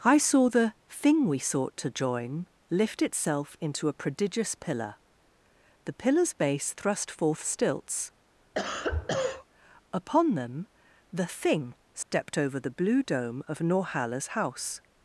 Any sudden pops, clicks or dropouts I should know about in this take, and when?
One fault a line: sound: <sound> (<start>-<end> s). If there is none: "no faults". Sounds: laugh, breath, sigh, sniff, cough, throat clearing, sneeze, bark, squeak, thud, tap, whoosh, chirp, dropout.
sound: cough (8.5-9.5 s)
sound: dropout (12.0-12.1 s)